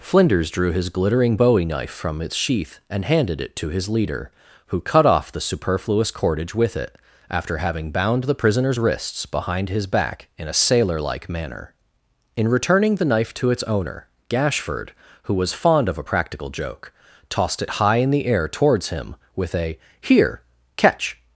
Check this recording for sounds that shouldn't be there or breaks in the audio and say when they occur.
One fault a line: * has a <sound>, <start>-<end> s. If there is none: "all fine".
all fine